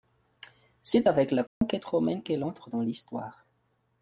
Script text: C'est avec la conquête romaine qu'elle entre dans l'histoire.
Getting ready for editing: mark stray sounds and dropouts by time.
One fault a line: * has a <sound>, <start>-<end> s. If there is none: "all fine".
* has a dropout, 1.5-1.6 s